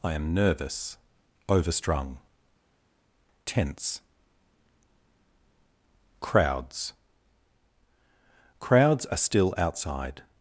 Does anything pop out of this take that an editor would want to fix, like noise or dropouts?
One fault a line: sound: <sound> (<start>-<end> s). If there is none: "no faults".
no faults